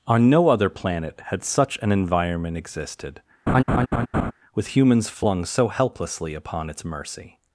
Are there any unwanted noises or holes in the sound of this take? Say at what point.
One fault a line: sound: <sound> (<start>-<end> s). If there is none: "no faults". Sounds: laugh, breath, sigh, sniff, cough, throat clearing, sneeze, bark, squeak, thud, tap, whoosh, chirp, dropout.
sound: laugh (3.5-4.3 s)